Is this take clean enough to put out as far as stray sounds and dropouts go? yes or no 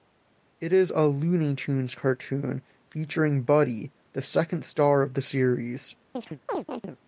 no